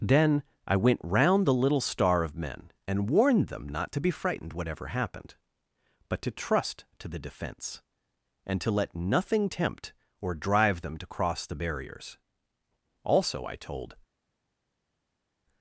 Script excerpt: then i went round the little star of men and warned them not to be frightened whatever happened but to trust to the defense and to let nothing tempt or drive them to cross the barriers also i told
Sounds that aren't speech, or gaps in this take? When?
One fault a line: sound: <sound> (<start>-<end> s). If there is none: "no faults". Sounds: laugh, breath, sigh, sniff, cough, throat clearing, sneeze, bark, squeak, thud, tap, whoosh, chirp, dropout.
no faults